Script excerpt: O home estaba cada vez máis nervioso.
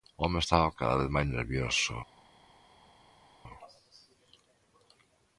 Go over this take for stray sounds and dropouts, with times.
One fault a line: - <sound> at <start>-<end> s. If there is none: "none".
none